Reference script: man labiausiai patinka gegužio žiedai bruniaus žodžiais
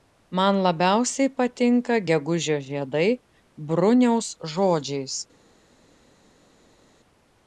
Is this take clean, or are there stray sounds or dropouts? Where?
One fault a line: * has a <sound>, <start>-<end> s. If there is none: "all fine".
all fine